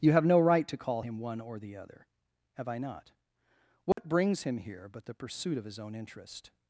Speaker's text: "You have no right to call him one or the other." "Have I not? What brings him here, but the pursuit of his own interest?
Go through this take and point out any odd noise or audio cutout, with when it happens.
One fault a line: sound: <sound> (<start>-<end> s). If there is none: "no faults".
sound: dropout (3.9-4.0 s)